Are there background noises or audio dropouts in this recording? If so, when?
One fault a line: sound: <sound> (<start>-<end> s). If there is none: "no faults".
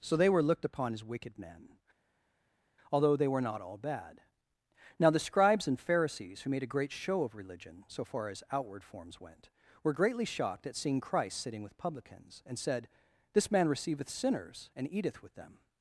no faults